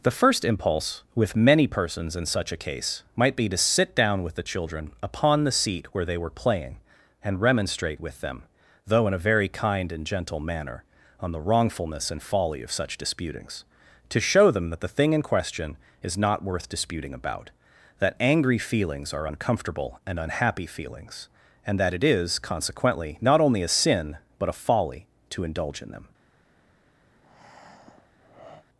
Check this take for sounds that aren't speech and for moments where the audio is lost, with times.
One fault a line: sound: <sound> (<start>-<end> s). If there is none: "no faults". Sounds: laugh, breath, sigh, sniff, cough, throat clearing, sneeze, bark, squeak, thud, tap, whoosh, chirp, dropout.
sound: breath (27.1-28.7 s)